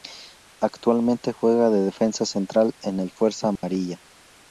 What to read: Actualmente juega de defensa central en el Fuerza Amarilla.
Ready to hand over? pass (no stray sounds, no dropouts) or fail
fail